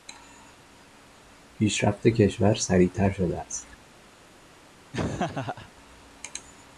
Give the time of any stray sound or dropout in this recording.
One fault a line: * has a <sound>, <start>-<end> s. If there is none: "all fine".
* has a laugh, 4.9-5.7 s